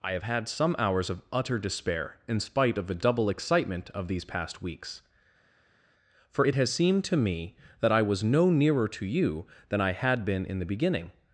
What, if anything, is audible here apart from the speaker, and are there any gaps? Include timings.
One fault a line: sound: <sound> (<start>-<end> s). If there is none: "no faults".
no faults